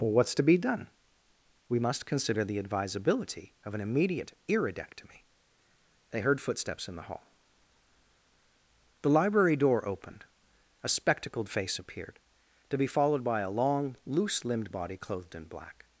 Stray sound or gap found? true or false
false